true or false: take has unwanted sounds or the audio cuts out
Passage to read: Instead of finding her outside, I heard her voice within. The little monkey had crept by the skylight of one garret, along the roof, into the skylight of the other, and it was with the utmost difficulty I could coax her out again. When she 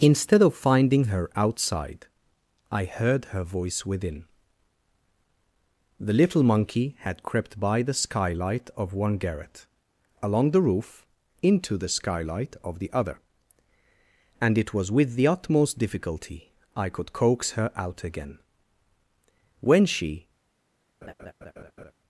true